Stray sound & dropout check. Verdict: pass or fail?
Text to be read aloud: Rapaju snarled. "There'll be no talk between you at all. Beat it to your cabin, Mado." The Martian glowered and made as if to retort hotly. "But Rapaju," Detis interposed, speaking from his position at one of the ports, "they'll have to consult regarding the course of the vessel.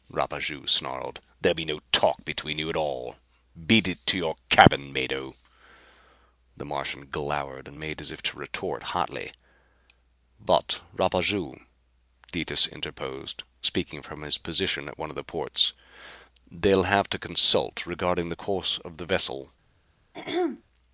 fail